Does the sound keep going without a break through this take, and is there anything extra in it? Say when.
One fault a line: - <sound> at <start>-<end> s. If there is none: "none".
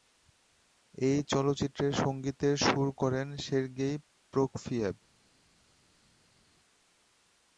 none